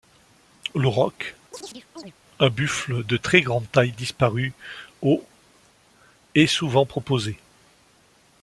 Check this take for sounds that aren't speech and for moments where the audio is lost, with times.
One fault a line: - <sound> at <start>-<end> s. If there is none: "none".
- chirp at 1.5-2.1 s